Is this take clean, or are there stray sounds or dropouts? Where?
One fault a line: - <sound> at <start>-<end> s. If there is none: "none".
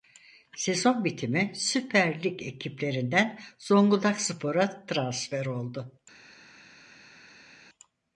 none